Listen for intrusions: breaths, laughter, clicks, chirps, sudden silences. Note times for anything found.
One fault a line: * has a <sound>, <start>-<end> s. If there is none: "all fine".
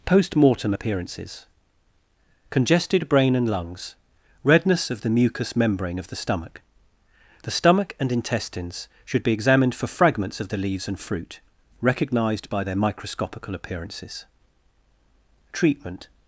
all fine